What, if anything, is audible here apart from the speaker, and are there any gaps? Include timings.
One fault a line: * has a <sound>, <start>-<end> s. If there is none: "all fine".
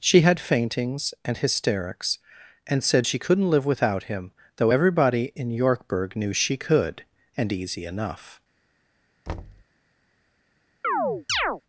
* has a thud, 9.3-9.6 s
* has a chirp, 10.8-11.6 s